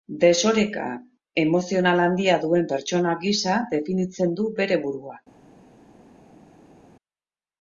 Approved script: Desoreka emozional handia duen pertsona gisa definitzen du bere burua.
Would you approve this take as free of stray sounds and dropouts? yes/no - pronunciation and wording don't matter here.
yes